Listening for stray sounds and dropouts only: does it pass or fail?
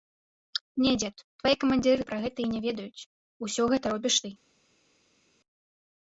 pass